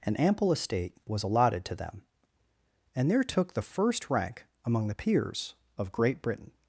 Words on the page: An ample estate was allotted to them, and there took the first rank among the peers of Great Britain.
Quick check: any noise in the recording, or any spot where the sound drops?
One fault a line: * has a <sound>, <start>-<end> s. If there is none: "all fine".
all fine